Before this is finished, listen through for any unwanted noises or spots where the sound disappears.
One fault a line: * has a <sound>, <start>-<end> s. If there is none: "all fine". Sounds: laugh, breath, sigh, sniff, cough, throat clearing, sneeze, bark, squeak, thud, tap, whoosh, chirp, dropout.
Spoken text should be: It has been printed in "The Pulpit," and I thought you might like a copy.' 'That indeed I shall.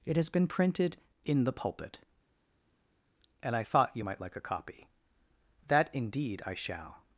all fine